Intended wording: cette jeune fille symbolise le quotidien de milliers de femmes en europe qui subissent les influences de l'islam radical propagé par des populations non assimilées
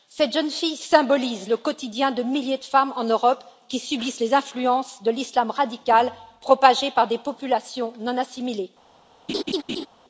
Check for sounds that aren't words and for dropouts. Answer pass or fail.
fail